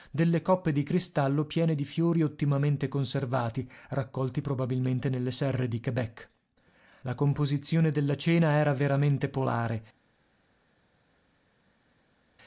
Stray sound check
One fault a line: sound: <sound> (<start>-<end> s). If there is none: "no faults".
no faults